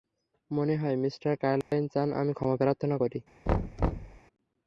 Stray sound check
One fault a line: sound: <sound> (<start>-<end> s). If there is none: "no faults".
sound: dropout (1.6-1.7 s)
sound: thud (3.5-4.2 s)